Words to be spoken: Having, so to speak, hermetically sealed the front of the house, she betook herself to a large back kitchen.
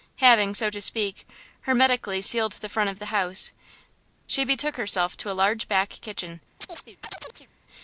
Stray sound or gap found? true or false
true